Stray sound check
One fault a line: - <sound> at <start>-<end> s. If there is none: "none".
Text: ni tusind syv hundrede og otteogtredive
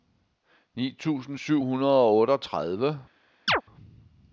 - chirp at 3.5-3.6 s